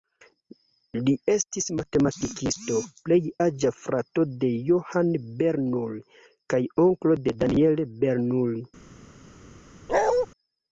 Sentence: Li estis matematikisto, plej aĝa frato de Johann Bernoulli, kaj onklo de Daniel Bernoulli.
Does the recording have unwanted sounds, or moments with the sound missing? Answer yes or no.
yes